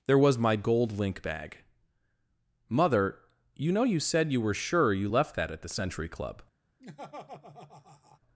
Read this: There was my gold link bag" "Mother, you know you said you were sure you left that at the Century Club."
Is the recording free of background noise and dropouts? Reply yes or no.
no